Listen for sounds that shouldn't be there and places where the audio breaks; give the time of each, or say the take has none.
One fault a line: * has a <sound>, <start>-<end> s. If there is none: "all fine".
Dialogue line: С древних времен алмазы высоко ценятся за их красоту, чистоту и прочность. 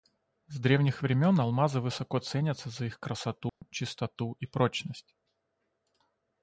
* has a dropout, 3.5-3.6 s